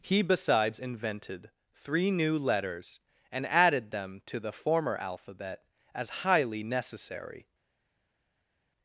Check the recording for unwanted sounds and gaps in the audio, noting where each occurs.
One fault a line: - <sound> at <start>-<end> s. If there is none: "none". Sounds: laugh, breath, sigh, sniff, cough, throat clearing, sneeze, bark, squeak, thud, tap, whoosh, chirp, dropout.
none